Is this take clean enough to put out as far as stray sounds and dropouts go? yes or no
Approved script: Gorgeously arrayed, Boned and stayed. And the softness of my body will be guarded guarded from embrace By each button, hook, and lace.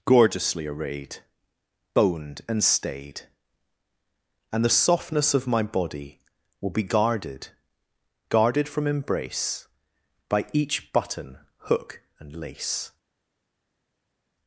yes